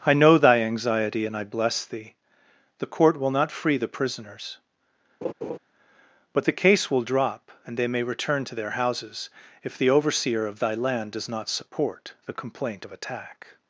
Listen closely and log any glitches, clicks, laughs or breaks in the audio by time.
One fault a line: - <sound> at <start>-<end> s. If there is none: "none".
- laugh at 5.2-5.6 s